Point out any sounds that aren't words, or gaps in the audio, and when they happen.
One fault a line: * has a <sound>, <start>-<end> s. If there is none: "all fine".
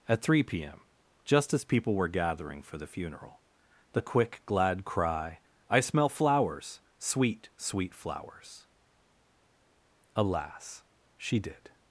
all fine